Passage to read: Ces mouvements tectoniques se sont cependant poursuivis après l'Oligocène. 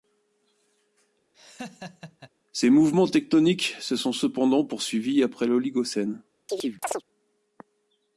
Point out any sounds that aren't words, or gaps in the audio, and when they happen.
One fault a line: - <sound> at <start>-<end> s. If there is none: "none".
- laugh at 1.3-2.3 s
- chirp at 6.5-7.0 s